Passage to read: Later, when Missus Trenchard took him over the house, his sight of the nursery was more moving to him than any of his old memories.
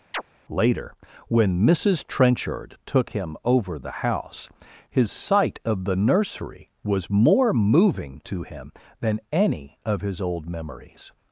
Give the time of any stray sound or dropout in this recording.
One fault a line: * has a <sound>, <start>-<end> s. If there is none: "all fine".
* has a chirp, 0.1-0.2 s